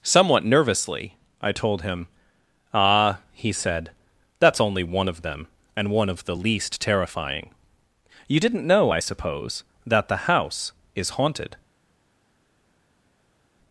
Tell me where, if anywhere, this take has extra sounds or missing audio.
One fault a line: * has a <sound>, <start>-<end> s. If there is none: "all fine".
all fine